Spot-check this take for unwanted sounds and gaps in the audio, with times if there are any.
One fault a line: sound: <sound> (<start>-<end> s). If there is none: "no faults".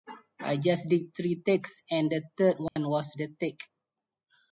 sound: dropout (2.7-2.8 s)